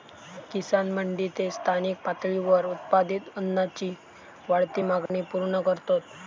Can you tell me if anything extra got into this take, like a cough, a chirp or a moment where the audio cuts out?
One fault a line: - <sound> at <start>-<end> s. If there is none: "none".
- dropout at 5.1-5.1 s